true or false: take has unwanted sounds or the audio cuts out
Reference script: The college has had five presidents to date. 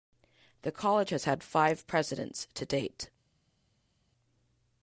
false